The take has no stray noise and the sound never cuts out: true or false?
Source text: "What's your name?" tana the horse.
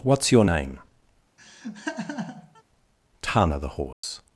false